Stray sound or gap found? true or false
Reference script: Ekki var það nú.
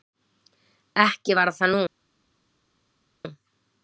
false